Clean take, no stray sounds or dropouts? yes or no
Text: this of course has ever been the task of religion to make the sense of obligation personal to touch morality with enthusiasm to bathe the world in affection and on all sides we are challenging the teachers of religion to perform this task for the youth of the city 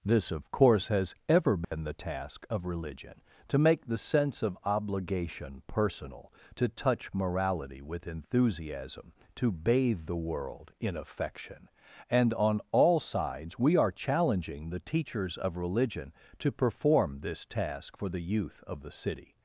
no